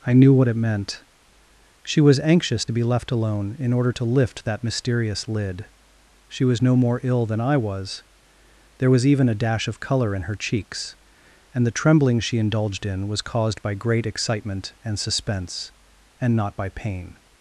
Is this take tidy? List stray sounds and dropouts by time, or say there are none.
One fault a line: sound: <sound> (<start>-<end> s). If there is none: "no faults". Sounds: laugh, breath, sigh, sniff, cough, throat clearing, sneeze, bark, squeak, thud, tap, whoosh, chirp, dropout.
no faults